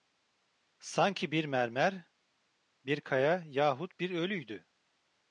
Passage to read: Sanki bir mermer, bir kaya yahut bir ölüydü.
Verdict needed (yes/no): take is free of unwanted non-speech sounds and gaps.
yes